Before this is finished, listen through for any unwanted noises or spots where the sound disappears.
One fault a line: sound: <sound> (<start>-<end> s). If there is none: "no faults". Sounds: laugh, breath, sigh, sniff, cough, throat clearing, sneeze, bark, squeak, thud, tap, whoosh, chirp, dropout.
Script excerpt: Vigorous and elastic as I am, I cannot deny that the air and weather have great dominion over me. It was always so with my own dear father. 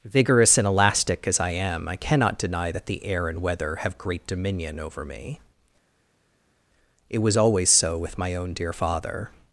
no faults